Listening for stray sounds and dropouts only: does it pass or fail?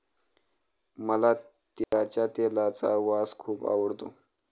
fail